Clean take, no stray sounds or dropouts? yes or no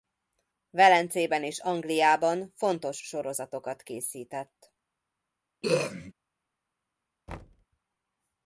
no